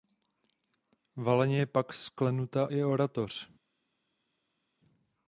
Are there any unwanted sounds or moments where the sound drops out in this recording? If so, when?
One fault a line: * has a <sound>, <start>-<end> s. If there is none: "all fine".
all fine